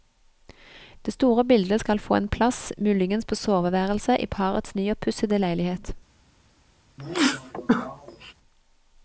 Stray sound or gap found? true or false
true